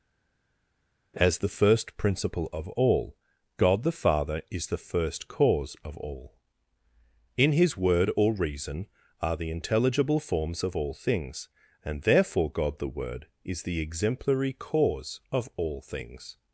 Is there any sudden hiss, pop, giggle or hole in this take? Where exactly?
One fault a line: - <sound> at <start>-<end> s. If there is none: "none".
none